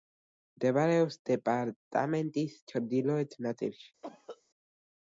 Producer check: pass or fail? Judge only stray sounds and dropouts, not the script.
fail